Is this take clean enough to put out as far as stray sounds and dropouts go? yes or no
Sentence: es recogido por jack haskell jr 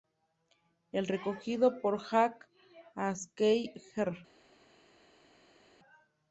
yes